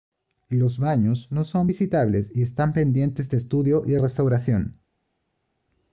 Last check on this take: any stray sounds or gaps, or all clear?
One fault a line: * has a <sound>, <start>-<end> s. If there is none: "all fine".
all fine